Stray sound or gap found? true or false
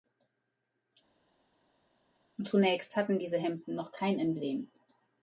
false